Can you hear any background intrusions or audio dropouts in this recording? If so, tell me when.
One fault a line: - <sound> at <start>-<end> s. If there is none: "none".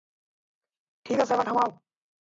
none